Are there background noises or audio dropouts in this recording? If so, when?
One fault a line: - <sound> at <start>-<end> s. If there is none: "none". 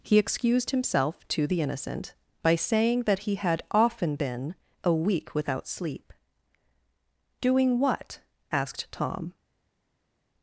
none